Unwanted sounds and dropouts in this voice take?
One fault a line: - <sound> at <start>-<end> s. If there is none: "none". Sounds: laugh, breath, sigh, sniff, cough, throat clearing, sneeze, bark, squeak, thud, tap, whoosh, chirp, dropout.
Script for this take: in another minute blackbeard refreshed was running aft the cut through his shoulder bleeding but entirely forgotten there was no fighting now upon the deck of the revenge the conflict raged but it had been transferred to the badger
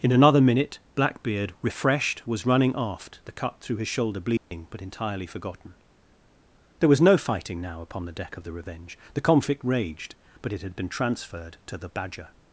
- dropout at 4.4-4.5 s